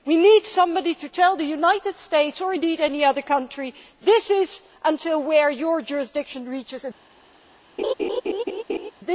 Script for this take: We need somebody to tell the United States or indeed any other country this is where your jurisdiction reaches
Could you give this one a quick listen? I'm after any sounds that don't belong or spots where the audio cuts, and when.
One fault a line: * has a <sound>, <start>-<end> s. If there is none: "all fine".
* has a laugh, 7.8-8.9 s